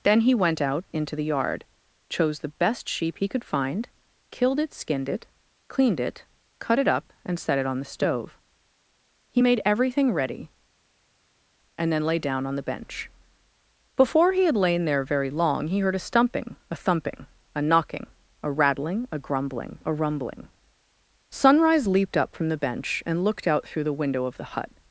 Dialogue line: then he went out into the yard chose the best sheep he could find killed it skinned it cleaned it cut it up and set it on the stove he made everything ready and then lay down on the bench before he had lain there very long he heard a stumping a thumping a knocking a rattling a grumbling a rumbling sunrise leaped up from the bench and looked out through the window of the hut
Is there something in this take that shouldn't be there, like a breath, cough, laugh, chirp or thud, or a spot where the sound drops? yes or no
no